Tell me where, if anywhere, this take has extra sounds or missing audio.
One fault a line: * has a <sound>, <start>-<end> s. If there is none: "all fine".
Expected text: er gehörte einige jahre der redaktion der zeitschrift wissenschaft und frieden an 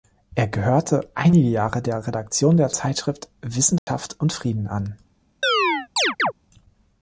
* has a dropout, 3.8-3.9 s
* has a chirp, 5.4-6.3 s